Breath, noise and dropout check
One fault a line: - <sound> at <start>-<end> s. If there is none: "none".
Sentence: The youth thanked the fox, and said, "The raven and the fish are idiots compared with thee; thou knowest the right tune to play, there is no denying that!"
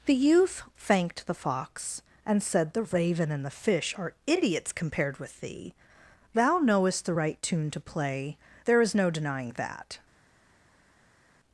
none